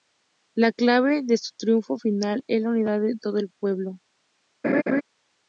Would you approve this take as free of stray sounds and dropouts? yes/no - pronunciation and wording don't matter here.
no